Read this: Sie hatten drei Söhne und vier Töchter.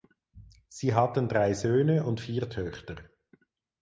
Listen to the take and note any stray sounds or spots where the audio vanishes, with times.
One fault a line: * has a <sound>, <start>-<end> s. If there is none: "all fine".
all fine